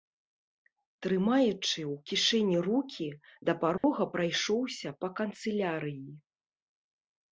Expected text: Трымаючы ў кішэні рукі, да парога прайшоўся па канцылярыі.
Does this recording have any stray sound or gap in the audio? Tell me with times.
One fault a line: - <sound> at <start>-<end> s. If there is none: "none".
- dropout at 3.8-3.8 s